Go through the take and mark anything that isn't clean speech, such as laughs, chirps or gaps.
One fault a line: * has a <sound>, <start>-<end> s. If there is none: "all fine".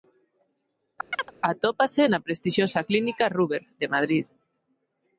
* has a chirp, 1.1-1.3 s